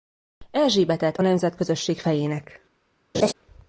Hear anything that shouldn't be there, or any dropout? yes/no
yes